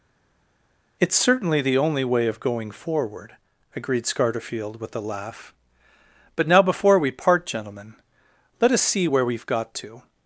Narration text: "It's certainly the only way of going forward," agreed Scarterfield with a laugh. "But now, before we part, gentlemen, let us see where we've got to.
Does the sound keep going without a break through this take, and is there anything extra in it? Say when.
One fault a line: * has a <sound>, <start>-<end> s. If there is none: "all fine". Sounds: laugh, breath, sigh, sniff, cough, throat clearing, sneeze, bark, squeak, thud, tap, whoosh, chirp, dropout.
all fine